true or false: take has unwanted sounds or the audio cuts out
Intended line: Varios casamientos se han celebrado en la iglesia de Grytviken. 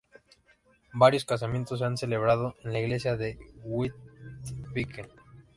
false